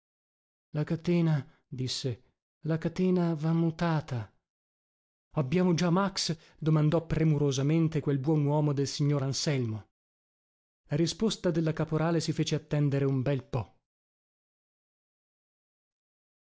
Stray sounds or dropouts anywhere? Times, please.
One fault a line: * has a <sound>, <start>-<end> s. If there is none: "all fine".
all fine